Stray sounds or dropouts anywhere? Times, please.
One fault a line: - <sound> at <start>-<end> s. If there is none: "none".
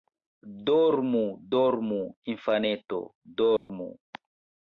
- dropout at 3.6-3.7 s